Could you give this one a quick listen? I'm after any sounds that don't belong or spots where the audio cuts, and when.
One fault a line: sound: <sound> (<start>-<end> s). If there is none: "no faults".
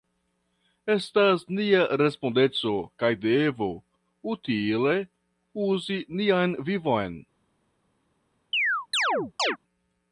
sound: chirp (8.5-9.6 s)